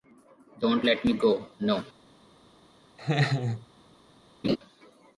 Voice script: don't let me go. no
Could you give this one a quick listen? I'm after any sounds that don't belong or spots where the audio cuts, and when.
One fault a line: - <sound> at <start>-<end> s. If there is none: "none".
- laugh at 3.0-3.7 s
- laugh at 4.4-4.6 s